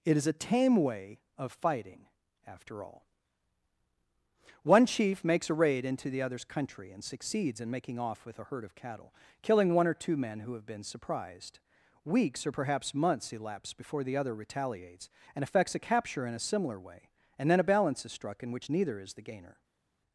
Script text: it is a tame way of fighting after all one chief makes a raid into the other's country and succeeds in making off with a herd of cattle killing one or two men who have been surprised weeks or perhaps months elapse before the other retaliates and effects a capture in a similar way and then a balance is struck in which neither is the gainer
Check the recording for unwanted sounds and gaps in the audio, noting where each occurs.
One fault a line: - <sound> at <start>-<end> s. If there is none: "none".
none